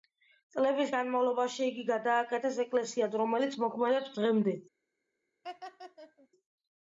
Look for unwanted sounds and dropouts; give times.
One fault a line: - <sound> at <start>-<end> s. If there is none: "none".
- laugh at 5.4-6.3 s